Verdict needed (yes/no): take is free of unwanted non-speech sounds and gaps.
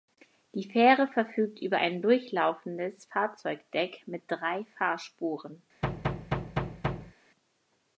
no